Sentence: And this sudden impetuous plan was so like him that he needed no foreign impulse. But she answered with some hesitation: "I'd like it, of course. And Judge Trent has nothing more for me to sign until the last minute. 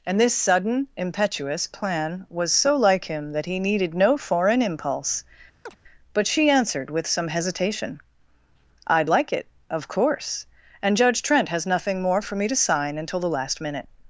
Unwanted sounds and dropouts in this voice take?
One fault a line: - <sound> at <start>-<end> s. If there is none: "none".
- chirp at 5.7-5.8 s